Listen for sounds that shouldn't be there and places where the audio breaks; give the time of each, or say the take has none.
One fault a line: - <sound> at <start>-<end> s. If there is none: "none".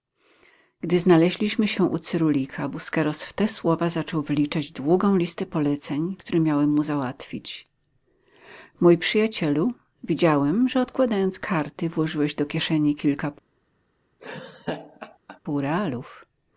- laugh at 14.2-15.4 s